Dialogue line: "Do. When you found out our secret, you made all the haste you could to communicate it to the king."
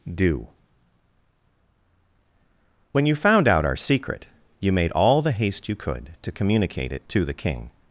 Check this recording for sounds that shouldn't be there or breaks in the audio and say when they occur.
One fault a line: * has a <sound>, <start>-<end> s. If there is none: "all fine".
all fine